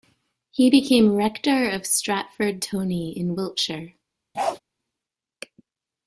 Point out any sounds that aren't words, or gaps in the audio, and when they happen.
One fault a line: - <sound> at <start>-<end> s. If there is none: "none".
- bark at 4.3-4.6 s